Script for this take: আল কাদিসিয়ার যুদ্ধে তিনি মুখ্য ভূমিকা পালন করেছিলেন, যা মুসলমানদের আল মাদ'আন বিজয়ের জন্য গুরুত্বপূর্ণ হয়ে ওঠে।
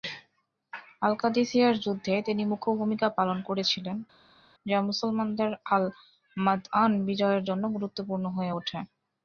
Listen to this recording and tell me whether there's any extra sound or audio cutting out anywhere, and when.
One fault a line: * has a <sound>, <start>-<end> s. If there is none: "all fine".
all fine